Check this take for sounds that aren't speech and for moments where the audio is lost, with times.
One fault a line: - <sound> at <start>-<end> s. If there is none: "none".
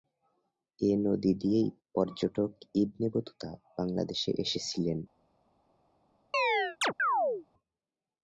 - chirp at 6.3-7.5 s